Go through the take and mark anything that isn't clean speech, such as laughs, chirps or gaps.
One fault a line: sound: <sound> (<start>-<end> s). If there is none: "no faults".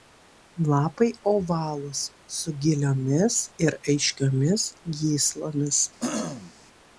sound: throat clearing (6.0-6.5 s)